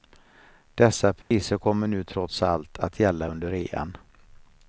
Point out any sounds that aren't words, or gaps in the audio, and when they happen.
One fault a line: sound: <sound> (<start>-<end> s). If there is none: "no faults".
sound: dropout (1.2-1.3 s)